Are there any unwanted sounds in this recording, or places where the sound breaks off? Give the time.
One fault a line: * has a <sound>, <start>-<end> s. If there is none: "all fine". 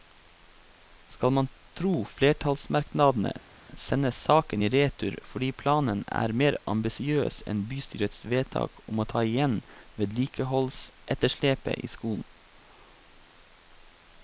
all fine